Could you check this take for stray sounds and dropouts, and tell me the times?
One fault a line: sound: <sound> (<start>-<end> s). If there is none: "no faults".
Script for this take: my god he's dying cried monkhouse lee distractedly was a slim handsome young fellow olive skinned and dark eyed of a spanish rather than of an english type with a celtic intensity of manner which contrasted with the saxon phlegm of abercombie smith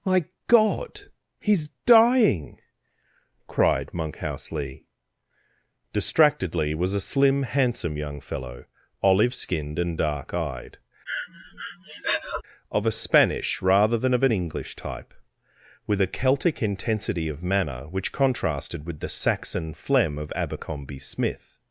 sound: breath (11.1-12.4 s)